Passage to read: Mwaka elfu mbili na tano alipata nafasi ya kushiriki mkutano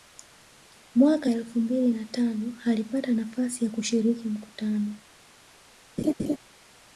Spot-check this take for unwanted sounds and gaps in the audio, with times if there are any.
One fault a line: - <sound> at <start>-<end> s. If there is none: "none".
- laugh at 6.0-6.4 s